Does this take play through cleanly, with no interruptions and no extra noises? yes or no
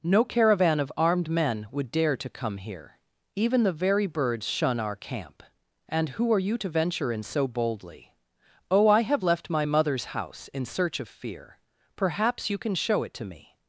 yes